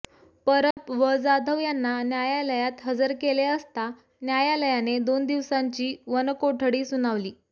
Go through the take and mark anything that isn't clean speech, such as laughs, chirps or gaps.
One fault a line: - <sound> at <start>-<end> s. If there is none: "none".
- dropout at 0.7-0.8 s